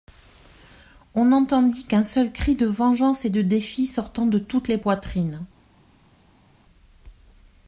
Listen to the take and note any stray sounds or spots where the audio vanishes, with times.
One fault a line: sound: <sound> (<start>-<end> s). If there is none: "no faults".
no faults